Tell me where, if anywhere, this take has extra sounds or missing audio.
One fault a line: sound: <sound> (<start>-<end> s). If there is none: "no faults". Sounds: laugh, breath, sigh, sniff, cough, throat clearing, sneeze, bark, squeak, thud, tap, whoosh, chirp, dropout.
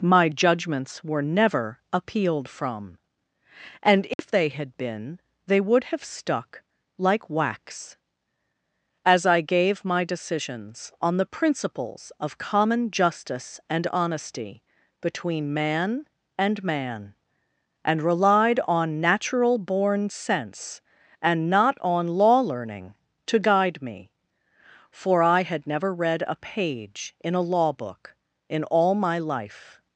sound: dropout (4.1-4.2 s)